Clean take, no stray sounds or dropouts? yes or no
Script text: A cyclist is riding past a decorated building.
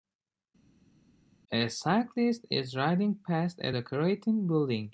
yes